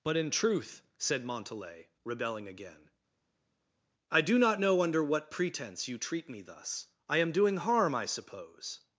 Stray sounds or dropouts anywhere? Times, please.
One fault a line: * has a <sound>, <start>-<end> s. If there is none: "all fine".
all fine